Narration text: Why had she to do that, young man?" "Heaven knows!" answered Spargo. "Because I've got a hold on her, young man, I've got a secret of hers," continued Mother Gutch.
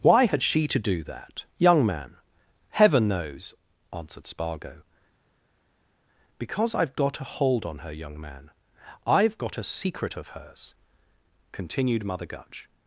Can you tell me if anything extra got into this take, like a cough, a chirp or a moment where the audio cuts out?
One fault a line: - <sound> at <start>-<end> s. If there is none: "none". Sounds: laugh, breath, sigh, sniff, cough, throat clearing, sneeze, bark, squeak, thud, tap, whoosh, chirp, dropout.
none